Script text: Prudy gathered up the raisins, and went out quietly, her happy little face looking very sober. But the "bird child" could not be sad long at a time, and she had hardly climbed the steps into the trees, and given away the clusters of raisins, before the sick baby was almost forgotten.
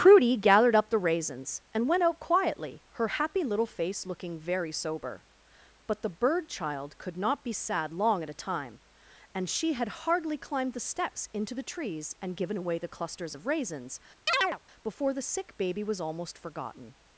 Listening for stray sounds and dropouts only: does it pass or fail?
fail